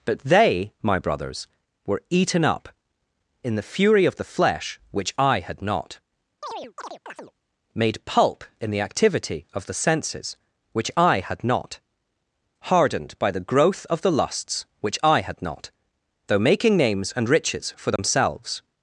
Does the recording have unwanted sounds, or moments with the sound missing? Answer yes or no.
yes